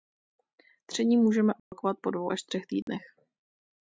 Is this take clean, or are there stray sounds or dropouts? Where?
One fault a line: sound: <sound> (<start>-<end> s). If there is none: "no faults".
sound: dropout (1.6-1.7 s)
sound: dropout (2.8-2.9 s)